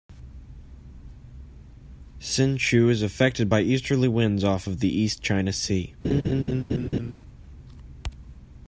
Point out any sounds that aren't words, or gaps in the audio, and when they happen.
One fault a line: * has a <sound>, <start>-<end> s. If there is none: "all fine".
* has a laugh, 6.0-7.1 s